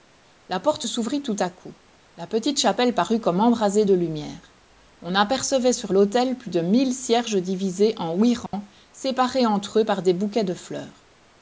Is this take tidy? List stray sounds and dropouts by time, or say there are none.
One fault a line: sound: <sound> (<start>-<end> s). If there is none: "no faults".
sound: dropout (8.5-8.5 s)